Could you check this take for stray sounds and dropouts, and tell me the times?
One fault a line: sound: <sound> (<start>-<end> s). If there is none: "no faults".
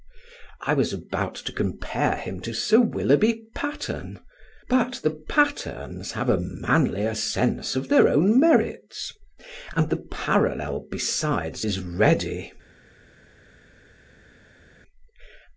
no faults